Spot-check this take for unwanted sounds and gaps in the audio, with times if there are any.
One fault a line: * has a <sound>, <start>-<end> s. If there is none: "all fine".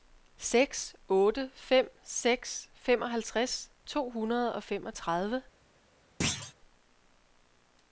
* has a thud, 6.2-6.5 s